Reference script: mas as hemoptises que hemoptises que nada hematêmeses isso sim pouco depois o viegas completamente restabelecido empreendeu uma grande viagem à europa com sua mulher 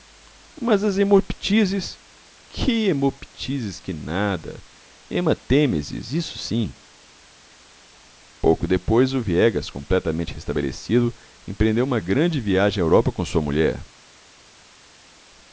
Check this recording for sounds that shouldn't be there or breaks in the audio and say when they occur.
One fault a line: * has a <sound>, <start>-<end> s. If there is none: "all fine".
all fine